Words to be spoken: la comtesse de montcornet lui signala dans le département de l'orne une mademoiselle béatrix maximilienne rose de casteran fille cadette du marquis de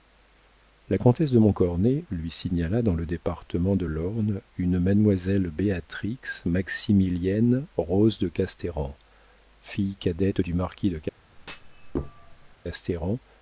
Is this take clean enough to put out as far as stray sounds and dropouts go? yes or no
no